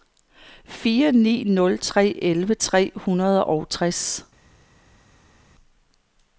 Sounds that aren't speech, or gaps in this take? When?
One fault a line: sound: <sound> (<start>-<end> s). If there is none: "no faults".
no faults